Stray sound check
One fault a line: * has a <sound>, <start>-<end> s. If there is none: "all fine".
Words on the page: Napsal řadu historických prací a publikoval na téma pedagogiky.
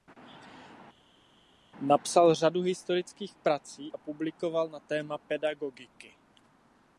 all fine